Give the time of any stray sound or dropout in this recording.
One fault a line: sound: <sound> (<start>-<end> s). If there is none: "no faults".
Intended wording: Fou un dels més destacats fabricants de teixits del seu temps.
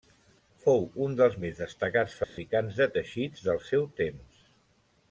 sound: dropout (2.2-2.4 s)